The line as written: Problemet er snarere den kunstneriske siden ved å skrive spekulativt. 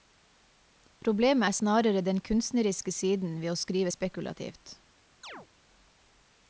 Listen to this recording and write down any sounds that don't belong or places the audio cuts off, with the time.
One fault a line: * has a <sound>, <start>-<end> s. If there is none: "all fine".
* has a chirp, 5.2-5.5 s